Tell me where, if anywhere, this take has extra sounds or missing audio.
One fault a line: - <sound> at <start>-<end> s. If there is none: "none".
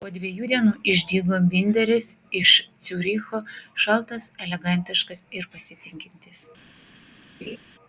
- laugh at 7.4-7.6 s